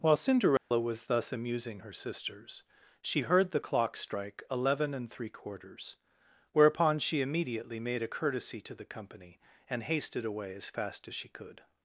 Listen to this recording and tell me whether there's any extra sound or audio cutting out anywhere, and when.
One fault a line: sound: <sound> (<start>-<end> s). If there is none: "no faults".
sound: dropout (0.6-0.7 s)